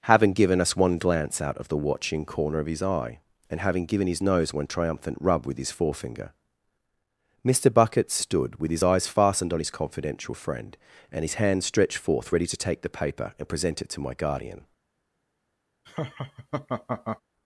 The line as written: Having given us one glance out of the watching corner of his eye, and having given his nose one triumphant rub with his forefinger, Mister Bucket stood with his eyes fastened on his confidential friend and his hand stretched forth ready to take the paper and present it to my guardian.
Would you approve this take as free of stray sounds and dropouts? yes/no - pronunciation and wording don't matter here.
no